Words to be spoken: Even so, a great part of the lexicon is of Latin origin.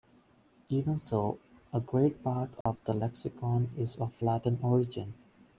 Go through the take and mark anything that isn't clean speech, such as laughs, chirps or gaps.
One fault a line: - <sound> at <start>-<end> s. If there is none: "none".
- dropout at 2.6-2.7 s